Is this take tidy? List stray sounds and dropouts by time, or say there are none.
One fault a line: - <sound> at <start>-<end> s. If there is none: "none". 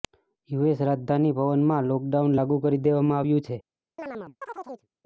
- chirp at 4.0-4.9 s